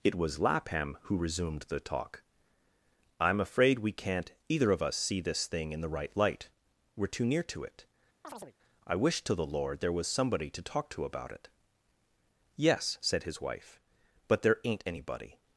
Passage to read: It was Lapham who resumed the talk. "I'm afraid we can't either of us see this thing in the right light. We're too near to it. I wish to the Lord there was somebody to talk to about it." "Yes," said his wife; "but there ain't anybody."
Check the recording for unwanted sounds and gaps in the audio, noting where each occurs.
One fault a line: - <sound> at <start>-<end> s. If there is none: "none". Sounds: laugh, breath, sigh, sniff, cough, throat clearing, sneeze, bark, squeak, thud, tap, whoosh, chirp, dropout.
- chirp at 8.2-8.5 s